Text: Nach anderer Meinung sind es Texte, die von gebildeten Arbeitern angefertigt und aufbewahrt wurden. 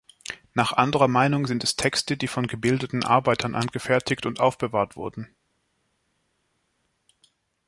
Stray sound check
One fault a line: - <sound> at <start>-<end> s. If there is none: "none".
none